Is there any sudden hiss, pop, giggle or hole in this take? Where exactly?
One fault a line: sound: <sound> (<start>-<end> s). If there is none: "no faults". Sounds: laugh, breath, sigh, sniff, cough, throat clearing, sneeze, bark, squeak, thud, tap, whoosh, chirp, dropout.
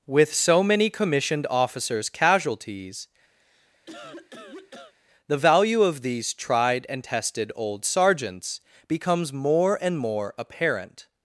sound: cough (3.4-4.9 s)